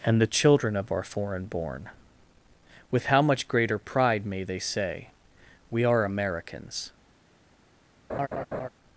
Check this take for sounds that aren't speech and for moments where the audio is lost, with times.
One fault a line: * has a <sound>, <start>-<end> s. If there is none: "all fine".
* has a laugh, 8.1-8.7 s